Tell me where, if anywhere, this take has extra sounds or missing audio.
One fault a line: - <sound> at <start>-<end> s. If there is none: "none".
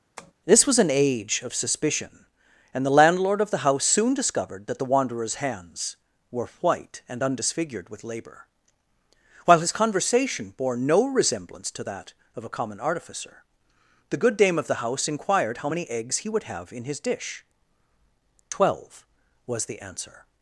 - tap at 0.2-0.3 s